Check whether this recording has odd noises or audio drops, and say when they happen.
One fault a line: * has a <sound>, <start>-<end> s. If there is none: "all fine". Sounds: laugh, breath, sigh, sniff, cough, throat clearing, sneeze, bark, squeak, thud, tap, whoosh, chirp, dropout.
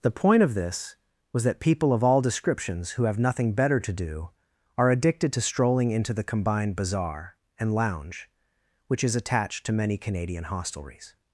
all fine